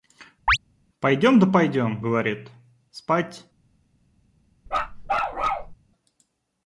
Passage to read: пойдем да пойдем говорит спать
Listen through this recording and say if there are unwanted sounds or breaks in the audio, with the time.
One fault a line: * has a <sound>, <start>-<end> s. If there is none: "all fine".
* has a chirp, 0.5-0.6 s
* has a bark, 4.7-5.8 s